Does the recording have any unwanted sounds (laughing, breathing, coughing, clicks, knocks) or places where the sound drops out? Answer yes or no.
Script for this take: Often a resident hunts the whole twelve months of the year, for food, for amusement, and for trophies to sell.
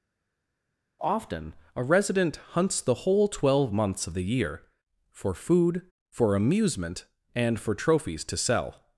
no